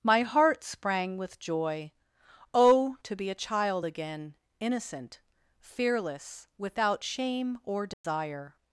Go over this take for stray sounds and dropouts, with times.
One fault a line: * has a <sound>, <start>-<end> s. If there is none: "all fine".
* has a dropout, 7.9-8.0 s